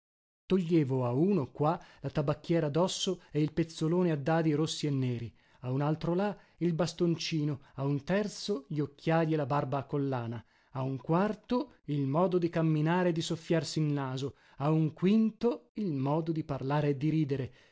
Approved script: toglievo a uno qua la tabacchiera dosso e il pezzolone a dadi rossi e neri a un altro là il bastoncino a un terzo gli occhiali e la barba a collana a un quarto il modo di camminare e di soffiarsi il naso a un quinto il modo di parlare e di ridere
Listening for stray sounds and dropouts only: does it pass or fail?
pass